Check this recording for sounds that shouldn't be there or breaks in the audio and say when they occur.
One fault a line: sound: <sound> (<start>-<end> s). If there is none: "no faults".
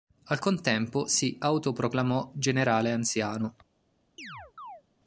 sound: chirp (4.2-4.8 s)